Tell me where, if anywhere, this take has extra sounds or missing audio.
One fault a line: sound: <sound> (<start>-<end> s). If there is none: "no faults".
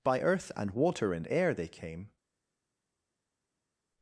no faults